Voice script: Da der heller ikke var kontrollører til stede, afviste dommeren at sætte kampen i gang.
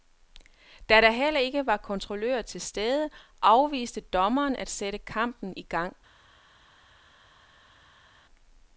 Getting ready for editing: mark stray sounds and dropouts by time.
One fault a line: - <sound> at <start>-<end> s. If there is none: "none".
none